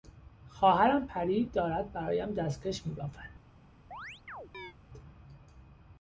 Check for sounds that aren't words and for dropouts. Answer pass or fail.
fail